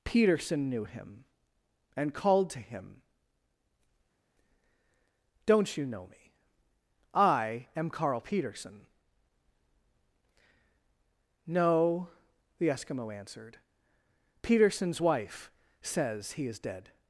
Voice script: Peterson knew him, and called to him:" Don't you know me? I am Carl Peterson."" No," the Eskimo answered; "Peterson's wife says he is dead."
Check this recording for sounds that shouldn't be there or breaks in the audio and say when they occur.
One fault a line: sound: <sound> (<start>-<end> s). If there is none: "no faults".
no faults